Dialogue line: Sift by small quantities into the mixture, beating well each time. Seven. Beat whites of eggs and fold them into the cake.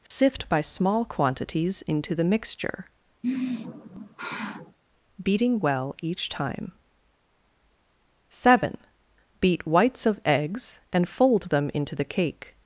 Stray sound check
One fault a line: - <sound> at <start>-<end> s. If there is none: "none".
- dropout at 0.1-0.1 s
- sigh at 3.2-4.8 s